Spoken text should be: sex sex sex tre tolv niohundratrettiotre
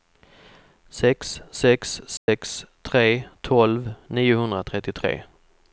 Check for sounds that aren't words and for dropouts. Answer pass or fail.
fail